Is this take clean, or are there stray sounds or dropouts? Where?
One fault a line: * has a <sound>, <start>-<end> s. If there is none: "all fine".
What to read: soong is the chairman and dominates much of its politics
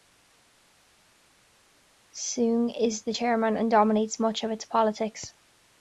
all fine